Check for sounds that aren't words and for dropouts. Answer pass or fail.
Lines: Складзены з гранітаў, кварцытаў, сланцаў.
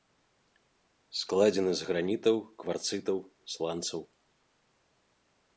pass